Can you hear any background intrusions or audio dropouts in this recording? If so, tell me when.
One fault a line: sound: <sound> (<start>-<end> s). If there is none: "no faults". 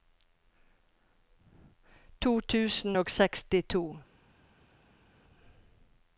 no faults